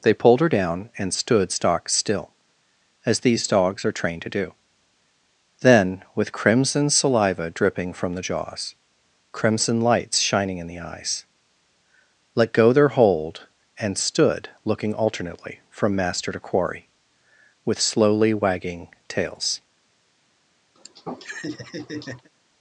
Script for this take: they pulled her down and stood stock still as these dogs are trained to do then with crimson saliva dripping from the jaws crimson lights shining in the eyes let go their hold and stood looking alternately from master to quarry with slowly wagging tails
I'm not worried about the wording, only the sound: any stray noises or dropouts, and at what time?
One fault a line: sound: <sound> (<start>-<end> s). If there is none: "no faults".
sound: laugh (20.8-22.3 s)